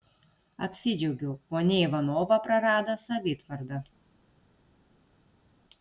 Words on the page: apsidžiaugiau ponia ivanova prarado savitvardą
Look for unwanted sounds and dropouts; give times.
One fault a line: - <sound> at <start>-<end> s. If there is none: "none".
none